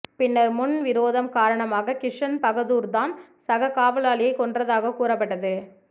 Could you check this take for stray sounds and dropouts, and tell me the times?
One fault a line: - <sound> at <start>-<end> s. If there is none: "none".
none